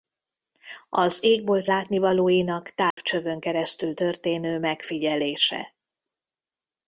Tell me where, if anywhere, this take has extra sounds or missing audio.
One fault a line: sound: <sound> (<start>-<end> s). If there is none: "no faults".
sound: dropout (2.9-3.0 s)